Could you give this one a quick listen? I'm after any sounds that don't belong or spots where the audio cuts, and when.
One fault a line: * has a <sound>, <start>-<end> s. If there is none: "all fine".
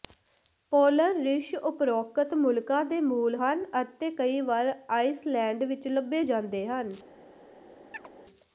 * has a chirp, 7.9-8.1 s